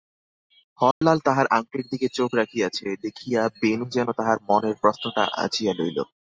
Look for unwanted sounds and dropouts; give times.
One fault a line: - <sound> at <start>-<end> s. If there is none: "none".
- dropout at 0.9-1.0 s